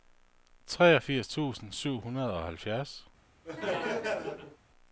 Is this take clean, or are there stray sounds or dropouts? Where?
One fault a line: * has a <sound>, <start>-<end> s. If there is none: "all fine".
* has a laugh, 3.4-4.6 s